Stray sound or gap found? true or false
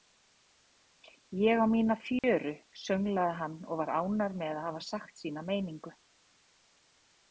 true